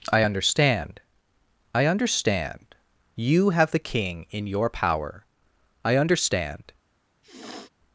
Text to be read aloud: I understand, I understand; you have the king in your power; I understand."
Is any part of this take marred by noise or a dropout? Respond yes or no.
yes